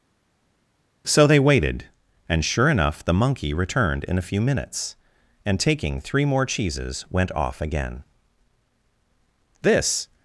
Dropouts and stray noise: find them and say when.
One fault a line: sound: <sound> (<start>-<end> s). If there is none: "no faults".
no faults